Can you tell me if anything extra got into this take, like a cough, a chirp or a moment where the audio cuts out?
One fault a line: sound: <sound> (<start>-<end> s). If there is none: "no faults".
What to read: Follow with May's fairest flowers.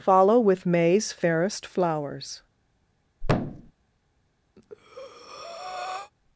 sound: thud (3.2-3.7 s)
sound: breath (4.6-6.1 s)